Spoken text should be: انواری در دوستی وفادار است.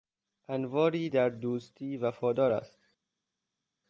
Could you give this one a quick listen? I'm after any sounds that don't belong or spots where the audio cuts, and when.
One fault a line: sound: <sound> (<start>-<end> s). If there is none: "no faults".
no faults